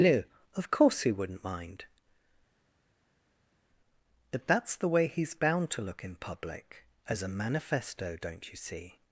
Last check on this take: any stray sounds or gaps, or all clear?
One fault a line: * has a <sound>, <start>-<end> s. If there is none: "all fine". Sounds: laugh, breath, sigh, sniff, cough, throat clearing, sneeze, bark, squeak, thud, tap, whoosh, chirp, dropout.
all fine